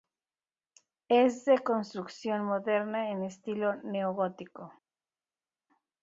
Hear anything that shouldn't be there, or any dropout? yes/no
no